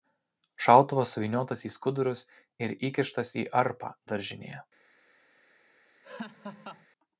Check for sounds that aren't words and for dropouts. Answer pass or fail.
fail